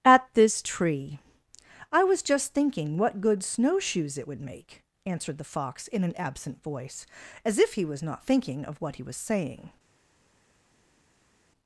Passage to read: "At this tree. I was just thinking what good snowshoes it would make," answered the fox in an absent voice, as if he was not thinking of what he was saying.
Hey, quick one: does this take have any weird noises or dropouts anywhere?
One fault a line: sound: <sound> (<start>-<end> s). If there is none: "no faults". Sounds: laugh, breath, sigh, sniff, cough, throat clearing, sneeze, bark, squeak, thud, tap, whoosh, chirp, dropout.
no faults